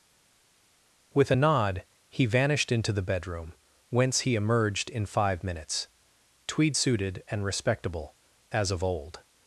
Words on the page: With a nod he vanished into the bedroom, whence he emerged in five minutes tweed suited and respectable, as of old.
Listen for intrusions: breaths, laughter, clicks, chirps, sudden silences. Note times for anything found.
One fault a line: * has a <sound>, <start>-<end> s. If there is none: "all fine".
all fine